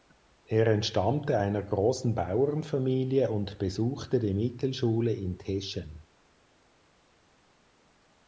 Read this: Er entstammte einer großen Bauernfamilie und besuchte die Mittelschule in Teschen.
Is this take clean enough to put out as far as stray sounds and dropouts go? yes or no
yes